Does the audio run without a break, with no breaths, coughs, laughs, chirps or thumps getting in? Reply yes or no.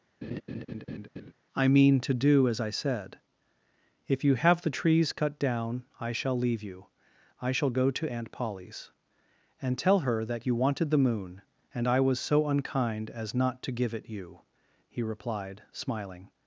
no